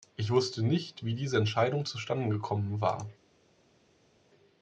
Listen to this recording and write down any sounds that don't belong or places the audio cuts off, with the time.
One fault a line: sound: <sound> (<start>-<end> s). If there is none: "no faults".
no faults